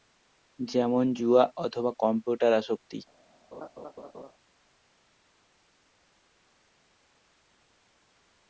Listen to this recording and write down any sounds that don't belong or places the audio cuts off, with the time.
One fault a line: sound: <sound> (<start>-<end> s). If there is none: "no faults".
sound: laugh (3.5-4.3 s)